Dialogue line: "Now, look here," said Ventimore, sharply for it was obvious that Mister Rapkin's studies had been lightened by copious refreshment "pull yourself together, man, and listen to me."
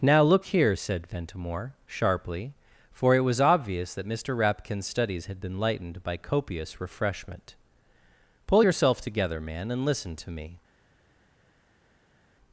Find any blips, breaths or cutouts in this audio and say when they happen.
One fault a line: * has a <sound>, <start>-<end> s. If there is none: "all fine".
all fine